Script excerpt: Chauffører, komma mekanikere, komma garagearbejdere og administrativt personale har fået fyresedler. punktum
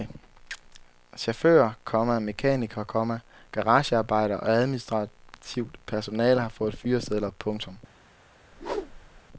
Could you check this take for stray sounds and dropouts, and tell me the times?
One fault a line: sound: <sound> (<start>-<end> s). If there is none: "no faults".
sound: whoosh (8.5-9.2 s)